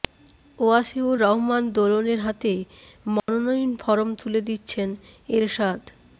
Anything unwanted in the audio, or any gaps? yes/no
yes